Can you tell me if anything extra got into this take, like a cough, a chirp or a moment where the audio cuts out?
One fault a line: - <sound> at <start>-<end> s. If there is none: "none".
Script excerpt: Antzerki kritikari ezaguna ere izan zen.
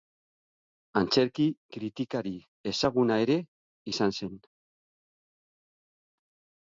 none